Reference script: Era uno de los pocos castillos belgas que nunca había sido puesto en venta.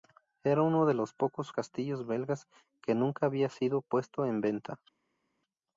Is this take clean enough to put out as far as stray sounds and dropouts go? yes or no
yes